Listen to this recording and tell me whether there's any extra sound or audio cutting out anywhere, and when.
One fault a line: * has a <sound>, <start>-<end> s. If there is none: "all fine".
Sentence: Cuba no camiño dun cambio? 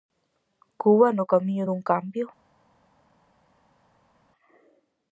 all fine